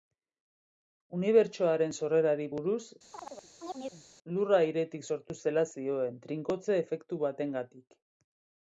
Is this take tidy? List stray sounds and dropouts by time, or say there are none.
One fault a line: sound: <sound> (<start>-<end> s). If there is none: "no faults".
sound: chirp (3.1-4.1 s)